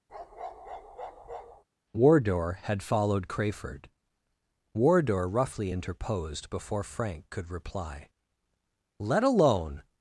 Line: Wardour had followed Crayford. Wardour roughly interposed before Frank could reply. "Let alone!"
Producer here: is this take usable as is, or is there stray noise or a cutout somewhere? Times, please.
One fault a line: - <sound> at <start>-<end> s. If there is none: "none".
- bark at 0.1-1.6 s